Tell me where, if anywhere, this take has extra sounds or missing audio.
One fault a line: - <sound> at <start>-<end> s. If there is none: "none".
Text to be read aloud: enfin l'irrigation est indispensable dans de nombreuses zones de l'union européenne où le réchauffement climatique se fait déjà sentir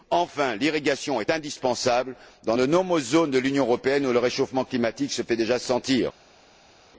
none